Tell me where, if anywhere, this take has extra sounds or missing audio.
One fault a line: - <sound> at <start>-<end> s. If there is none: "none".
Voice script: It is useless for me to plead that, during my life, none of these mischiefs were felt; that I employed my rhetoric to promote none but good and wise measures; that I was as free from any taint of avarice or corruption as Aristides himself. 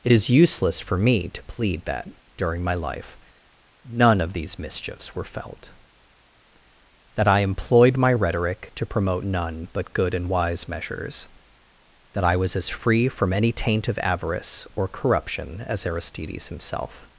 none